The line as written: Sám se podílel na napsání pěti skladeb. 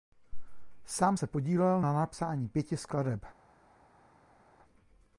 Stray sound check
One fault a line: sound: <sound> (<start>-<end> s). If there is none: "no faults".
no faults